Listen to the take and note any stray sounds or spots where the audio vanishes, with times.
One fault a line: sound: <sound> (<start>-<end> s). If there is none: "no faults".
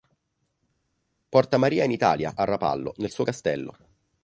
no faults